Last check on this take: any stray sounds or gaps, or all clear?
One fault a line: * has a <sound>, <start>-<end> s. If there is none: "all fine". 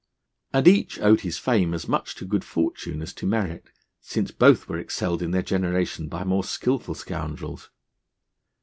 all fine